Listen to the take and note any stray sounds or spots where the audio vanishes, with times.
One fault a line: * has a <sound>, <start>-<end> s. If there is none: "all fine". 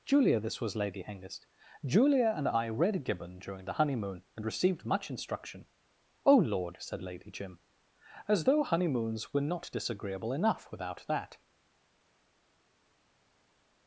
all fine